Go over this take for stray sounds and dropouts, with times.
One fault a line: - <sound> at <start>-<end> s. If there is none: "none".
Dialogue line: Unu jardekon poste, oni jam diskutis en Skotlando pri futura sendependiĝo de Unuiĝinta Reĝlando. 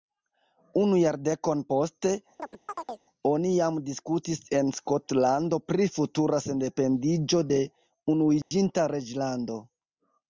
- chirp at 2.4-3.0 s
- dropout at 8.4-8.5 s